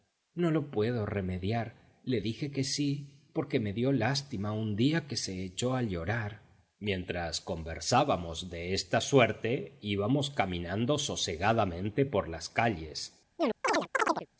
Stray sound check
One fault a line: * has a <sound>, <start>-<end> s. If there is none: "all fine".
* has a chirp, 13.4-14.3 s